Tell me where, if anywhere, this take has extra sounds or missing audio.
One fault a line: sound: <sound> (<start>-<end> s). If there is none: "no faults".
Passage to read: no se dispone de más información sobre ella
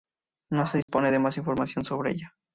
sound: dropout (0.8-0.9 s)